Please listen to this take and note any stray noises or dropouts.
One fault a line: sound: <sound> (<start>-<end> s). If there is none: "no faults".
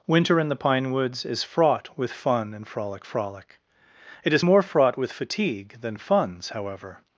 no faults